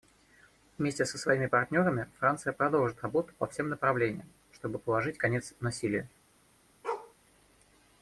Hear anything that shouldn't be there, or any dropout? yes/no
yes